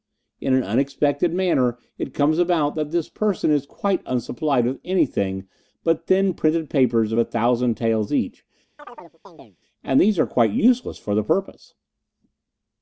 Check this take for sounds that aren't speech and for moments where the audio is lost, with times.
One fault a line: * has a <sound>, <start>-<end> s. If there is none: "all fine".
* has a chirp, 8.8-9.6 s